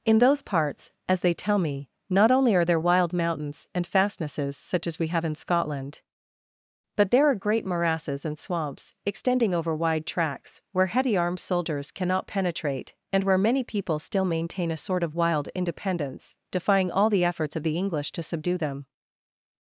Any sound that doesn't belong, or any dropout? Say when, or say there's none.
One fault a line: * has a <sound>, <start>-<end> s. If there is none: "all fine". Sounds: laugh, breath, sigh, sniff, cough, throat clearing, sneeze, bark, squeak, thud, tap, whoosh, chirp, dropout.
all fine